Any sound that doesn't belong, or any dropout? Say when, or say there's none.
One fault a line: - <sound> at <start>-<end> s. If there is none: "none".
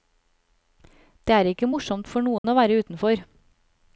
- dropout at 2.4-2.4 s